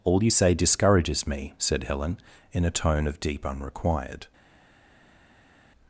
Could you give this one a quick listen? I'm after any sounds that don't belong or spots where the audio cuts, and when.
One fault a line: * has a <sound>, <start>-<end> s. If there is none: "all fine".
all fine